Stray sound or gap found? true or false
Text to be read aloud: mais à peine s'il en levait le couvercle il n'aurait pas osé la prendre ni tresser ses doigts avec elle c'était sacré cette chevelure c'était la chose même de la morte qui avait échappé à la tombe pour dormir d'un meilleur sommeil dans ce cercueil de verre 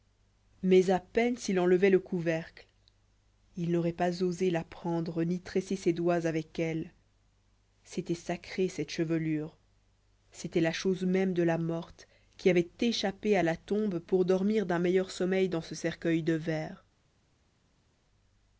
false